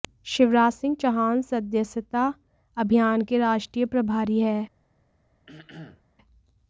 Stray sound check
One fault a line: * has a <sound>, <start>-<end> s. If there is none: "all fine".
* has a throat clearing, 5.5-6.0 s